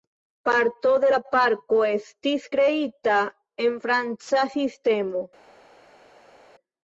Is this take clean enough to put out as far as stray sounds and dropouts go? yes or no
yes